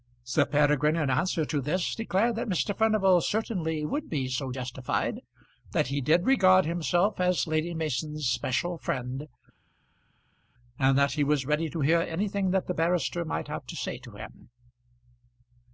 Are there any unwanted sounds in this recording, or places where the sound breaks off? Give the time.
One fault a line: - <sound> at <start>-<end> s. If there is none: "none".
none